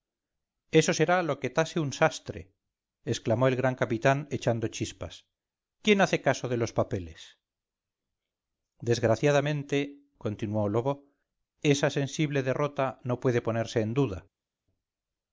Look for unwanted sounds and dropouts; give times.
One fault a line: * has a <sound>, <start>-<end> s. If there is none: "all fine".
all fine